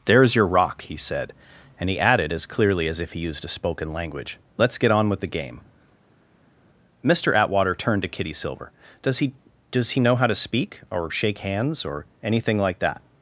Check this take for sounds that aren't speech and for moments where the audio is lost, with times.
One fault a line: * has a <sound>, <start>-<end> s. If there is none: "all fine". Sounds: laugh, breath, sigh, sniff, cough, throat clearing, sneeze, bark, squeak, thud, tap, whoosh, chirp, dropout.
all fine